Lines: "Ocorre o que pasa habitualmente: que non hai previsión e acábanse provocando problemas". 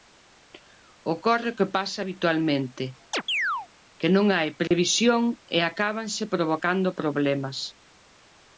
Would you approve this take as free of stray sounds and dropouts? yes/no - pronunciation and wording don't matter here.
no